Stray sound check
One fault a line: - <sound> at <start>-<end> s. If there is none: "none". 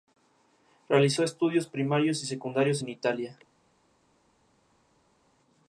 none